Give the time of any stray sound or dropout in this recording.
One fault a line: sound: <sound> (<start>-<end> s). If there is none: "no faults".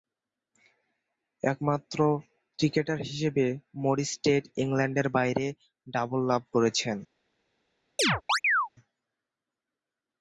sound: chirp (8.0-8.7 s)